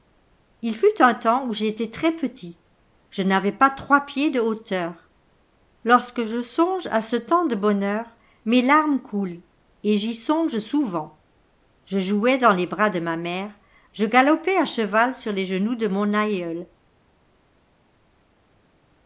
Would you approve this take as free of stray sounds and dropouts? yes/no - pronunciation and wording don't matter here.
yes